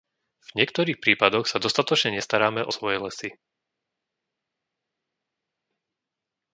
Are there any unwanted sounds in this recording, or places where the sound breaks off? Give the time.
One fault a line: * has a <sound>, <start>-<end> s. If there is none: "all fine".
all fine